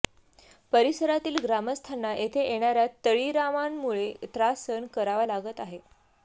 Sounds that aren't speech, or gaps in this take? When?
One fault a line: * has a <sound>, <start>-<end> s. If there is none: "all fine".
all fine